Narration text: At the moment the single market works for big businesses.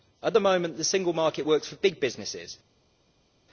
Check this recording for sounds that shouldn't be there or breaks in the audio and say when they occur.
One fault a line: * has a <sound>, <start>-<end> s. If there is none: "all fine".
all fine